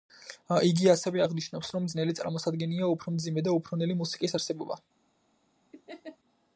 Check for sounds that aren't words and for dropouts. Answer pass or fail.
fail